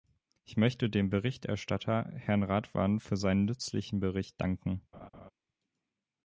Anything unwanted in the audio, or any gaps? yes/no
yes